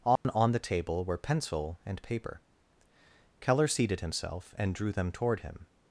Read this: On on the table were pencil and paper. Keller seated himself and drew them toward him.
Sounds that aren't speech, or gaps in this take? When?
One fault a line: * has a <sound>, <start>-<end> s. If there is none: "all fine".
* has a dropout, 0.2-0.2 s